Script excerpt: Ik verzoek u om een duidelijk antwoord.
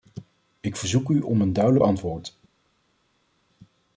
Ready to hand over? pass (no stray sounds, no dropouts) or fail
pass